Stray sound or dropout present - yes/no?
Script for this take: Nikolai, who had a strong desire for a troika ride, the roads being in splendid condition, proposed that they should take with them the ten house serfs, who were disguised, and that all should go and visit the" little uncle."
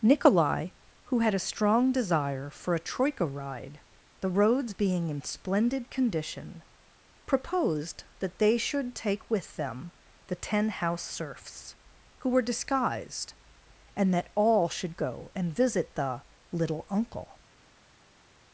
no